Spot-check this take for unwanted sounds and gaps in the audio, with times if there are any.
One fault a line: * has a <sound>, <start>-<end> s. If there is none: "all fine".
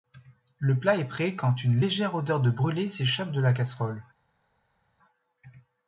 all fine